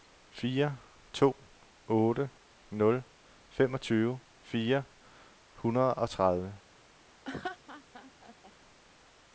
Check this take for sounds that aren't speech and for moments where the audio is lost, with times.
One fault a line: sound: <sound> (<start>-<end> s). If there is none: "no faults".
sound: laugh (7.3-8.5 s)